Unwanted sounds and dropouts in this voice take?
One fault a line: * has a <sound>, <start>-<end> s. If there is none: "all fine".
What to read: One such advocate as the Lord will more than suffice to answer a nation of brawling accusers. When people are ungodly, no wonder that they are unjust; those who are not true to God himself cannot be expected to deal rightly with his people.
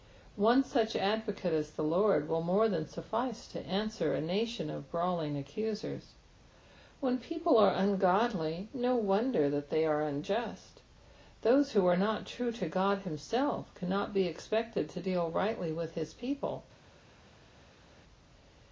all fine